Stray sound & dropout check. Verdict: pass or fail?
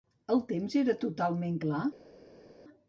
pass